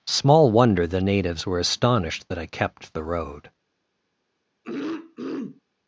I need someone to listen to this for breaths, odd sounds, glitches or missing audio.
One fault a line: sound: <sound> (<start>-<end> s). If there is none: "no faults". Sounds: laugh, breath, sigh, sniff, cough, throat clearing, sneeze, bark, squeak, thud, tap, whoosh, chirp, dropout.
sound: throat clearing (4.6-5.6 s)